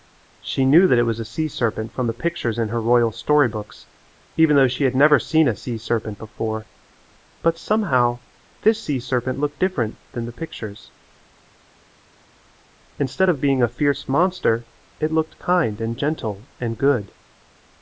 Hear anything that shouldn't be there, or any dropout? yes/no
no